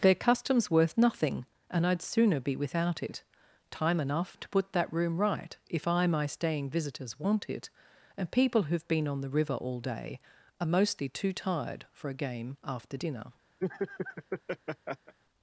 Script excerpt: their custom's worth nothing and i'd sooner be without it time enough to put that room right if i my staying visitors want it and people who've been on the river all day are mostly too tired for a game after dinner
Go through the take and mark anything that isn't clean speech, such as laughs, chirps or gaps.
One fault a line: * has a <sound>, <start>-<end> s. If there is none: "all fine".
* has a laugh, 13.6-15.1 s